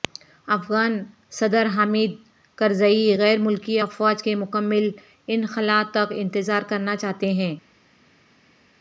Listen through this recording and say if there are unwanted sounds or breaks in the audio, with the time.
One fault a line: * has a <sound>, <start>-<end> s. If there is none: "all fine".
all fine